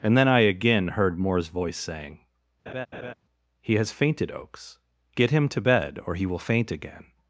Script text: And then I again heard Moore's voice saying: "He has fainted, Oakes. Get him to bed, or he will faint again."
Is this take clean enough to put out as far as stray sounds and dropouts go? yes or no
no